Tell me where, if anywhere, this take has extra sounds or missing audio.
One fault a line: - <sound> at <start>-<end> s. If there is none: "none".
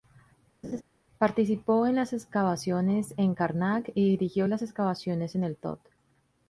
- laugh at 0.6-0.8 s